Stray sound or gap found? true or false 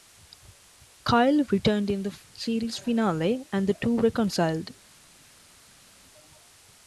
false